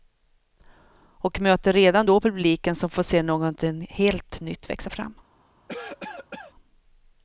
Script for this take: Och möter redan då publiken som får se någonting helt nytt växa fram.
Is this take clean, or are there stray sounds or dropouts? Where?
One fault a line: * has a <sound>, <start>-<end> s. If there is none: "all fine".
* has a cough, 5.7-6.5 s